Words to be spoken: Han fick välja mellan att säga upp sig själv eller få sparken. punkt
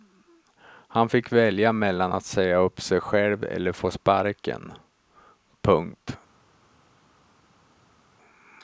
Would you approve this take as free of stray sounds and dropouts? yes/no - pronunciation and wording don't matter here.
yes